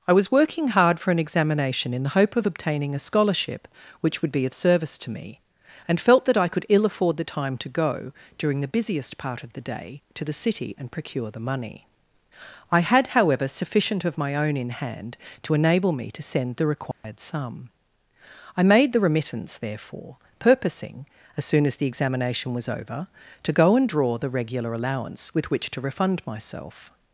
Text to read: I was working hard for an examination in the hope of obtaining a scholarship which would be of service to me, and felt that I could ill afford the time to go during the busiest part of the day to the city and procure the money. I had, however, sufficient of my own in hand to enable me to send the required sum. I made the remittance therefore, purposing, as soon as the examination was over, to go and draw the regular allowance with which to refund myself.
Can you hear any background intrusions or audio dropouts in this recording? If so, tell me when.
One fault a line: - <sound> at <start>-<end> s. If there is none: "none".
- dropout at 16.9-17.0 s